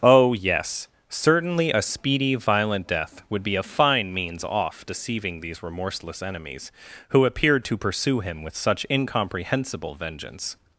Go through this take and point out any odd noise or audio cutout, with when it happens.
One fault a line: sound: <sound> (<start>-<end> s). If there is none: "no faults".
no faults